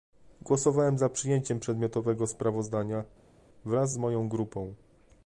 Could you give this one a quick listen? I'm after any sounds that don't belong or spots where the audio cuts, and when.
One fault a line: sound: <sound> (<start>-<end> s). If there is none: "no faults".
no faults